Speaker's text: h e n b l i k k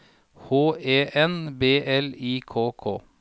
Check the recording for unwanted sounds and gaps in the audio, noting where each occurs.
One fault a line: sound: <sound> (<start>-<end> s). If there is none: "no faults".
no faults